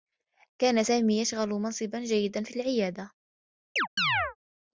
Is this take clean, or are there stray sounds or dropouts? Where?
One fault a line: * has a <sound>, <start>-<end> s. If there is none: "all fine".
* has a chirp, 3.8-4.4 s